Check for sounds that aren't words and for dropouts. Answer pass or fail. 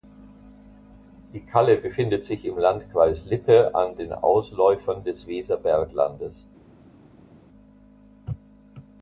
pass